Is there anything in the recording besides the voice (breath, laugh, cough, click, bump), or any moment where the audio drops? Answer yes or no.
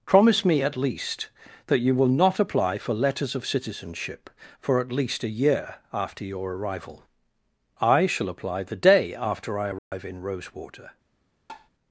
yes